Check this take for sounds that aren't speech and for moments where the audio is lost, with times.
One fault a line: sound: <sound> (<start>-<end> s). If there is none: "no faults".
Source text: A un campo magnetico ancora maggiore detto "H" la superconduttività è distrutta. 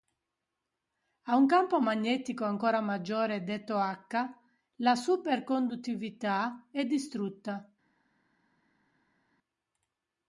no faults